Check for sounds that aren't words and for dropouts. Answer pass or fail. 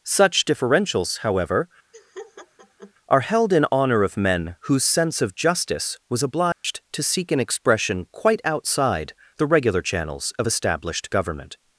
fail